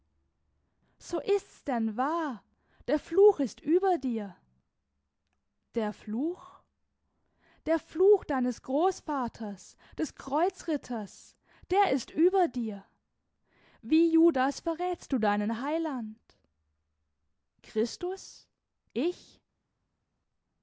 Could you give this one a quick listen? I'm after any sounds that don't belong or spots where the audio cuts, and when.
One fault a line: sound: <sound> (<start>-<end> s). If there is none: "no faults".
no faults